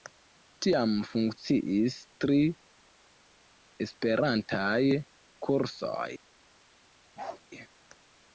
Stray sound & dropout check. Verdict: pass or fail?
fail